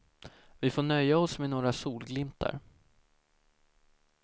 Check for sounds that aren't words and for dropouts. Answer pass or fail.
pass